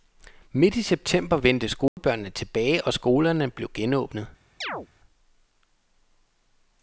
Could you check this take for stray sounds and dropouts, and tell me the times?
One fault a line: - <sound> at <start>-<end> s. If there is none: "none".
- dropout at 1.9-2.0 s
- chirp at 4.6-4.9 s